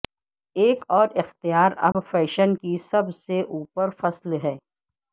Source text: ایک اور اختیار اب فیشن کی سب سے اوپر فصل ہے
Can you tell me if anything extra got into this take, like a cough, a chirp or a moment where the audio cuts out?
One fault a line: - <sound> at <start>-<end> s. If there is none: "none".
- dropout at 1.9-1.9 s